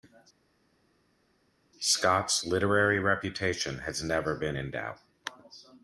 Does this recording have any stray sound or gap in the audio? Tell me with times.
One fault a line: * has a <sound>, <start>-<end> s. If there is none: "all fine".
all fine